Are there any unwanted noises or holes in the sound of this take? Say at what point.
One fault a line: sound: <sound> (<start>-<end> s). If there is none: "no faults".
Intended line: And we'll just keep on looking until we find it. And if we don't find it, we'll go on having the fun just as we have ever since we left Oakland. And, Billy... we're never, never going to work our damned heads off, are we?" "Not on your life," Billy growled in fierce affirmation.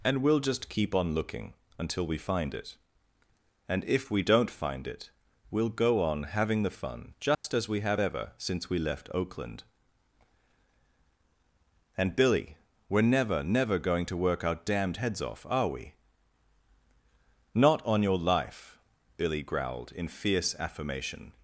sound: dropout (7.3-7.4 s)